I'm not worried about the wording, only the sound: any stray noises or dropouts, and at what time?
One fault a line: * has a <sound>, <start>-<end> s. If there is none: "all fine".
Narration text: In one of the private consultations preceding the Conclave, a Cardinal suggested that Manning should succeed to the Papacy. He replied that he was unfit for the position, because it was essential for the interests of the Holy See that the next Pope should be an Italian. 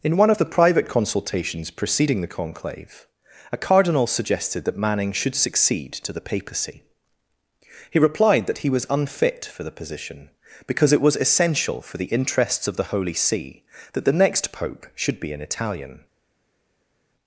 all fine